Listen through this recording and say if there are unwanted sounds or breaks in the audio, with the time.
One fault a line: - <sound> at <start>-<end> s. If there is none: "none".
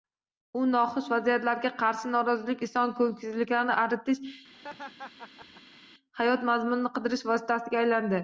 - laugh at 4.5-5.8 s